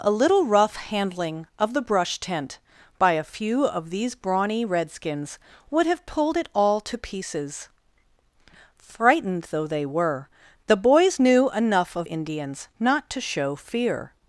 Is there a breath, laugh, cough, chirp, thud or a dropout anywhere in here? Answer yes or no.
no